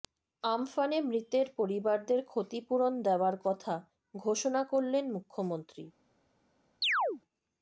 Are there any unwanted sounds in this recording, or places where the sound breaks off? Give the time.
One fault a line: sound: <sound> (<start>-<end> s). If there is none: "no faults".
sound: chirp (6.8-7.2 s)